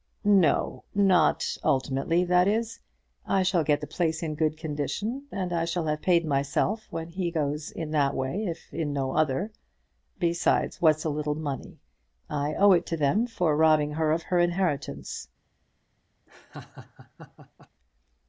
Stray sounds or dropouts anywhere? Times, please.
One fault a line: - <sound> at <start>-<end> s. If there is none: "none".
- laugh at 16.3-17.7 s